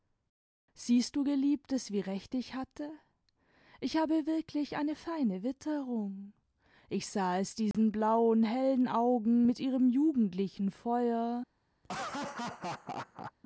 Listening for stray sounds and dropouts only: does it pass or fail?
fail